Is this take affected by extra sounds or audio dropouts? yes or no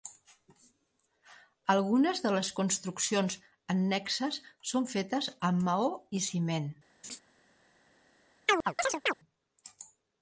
yes